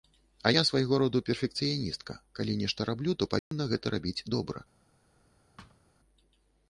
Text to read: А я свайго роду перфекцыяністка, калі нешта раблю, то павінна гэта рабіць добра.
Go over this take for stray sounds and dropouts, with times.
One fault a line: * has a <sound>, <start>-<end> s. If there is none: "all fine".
* has a dropout, 3.4-3.5 s
* has a thud, 5.6-5.8 s